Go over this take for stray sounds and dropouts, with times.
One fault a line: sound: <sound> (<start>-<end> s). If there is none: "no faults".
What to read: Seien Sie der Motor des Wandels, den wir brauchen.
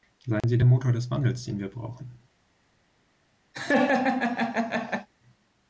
sound: dropout (0.4-0.4 s)
sound: laugh (3.5-5.1 s)